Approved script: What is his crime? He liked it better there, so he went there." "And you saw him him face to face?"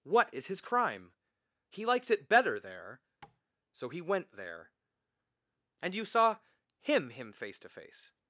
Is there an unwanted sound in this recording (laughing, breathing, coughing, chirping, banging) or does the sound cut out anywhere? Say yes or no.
yes